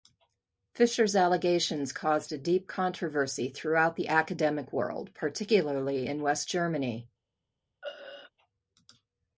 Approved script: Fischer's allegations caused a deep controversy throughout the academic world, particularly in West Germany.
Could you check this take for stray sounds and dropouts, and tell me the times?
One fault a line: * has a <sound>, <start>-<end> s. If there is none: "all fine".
* has a throat clearing, 7.8-8.3 s